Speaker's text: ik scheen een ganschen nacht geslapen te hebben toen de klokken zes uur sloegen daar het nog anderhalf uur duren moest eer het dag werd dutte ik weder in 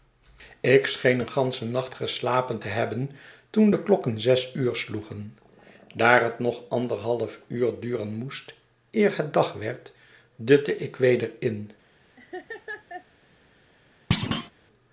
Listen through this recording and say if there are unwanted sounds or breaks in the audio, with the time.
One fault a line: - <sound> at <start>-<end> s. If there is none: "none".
- laugh at 12.2-13.1 s
- thud at 14.1-14.5 s